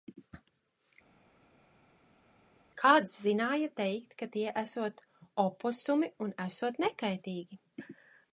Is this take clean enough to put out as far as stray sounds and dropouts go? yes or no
yes